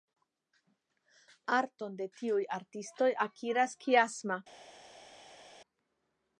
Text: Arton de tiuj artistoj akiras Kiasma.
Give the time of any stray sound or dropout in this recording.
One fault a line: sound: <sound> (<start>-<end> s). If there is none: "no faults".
no faults